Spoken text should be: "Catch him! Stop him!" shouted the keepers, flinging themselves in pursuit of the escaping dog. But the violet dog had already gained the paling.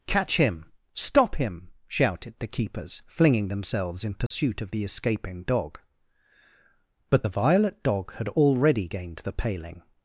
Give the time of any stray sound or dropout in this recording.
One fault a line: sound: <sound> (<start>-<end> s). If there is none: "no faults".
sound: dropout (4.3-4.3 s)